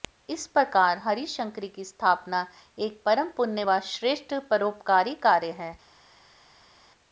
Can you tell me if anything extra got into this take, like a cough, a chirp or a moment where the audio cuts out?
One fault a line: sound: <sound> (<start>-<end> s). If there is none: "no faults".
no faults